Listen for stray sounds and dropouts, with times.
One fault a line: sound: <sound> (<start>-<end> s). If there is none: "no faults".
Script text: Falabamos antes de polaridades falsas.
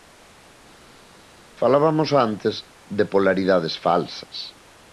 no faults